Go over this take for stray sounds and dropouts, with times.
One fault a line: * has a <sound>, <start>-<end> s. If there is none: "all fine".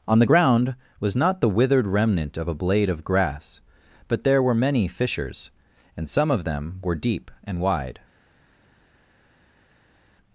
all fine